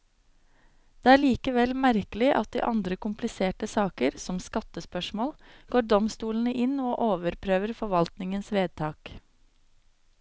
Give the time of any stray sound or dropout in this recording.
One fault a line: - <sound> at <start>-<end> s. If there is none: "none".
none